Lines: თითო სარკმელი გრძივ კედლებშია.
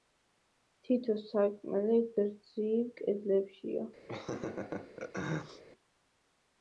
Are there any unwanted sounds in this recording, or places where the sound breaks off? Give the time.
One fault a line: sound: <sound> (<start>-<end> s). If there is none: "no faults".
sound: laugh (4.1-5.6 s)